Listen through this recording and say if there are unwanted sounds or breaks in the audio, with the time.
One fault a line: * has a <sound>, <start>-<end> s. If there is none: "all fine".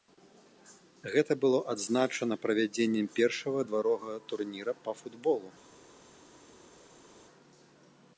all fine